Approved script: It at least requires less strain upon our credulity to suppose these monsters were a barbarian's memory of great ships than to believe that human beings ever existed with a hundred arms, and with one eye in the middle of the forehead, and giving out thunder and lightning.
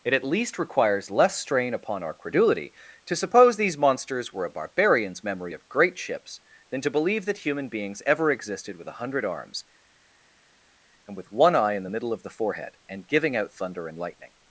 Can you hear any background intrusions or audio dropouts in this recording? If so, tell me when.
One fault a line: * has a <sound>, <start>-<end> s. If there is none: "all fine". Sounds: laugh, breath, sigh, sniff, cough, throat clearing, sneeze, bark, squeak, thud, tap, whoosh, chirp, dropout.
all fine